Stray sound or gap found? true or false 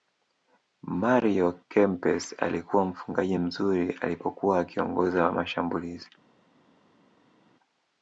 false